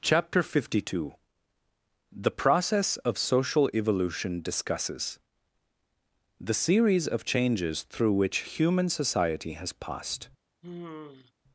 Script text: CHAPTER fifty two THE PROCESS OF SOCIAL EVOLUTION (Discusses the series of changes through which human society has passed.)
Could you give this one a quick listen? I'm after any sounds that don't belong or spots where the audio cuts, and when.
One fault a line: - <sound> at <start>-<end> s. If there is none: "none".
- sigh at 10.6-11.3 s